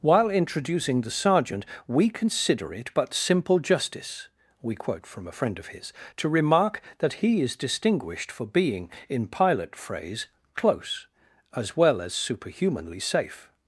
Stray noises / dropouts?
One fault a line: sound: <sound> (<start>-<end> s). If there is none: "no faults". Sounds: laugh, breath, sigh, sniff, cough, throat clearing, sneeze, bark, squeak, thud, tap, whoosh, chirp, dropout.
no faults